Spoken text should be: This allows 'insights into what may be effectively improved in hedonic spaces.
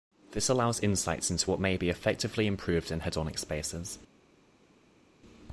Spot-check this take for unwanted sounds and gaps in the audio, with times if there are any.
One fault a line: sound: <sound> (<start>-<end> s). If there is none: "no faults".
no faults